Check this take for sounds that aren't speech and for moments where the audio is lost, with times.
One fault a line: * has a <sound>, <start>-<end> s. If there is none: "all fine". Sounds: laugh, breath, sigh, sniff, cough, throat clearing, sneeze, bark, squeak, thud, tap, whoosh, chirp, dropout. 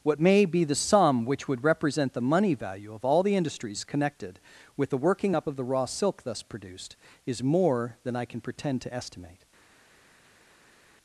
all fine